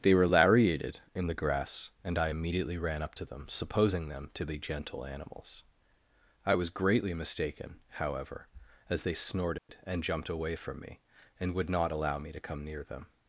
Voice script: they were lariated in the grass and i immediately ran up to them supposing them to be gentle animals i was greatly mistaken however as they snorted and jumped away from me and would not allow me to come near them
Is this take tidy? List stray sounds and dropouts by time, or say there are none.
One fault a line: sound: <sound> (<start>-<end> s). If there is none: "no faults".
sound: dropout (9.6-9.7 s)